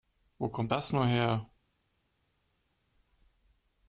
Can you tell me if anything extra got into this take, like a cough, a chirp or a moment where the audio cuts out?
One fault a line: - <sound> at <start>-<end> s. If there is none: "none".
none